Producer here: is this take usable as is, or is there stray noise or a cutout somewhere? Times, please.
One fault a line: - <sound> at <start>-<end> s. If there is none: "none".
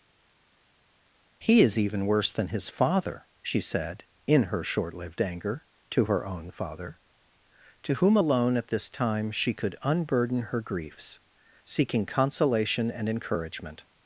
none